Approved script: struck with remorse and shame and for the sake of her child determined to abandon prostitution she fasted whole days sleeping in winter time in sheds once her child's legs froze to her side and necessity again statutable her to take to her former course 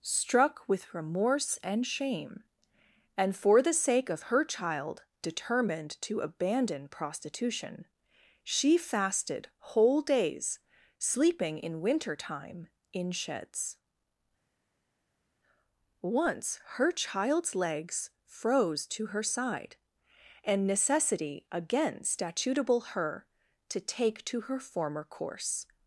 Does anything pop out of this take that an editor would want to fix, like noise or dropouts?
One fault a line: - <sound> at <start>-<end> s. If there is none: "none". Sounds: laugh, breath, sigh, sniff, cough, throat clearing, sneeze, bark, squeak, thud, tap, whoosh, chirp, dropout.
none